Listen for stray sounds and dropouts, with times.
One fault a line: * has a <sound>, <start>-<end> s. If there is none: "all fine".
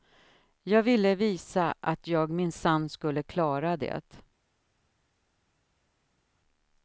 all fine